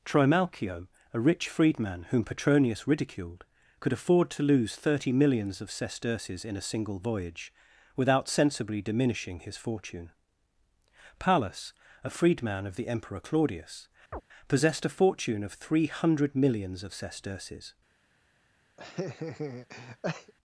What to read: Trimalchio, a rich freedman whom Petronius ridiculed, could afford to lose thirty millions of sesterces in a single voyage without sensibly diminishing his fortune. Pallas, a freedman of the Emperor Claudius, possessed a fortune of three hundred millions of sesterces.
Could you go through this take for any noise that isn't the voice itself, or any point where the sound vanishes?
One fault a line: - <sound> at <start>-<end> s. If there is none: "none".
- chirp at 14.1-14.2 s
- laugh at 18.8-20.3 s